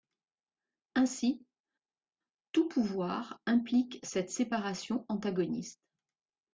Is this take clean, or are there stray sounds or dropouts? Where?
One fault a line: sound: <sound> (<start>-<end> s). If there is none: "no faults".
no faults